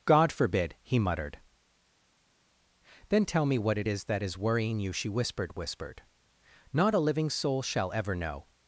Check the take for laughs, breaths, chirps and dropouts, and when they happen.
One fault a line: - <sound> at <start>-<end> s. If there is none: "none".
none